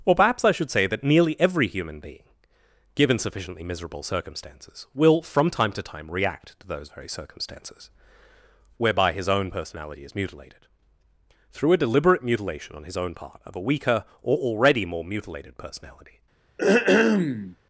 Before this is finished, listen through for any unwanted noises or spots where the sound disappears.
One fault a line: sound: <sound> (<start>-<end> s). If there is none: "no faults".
sound: throat clearing (16.6-17.6 s)